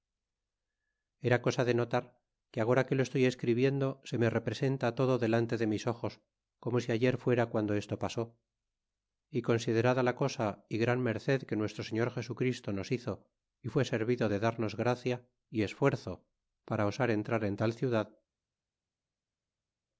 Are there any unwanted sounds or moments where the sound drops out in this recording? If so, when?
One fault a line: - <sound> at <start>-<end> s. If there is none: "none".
none